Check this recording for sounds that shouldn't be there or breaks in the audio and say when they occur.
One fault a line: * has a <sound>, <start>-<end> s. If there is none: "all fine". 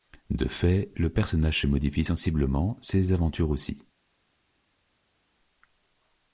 all fine